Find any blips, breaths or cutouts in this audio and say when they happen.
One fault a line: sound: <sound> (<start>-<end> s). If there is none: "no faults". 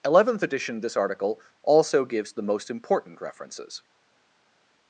no faults